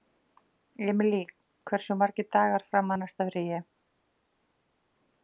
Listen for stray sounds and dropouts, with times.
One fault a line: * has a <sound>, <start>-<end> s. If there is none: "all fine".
all fine